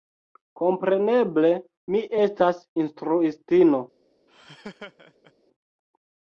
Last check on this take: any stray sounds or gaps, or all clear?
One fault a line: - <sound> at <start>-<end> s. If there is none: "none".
- laugh at 4.3-5.3 s